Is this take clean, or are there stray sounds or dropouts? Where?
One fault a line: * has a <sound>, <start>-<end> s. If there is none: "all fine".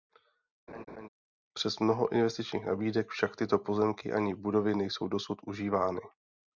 * has a laugh, 0.7-1.1 s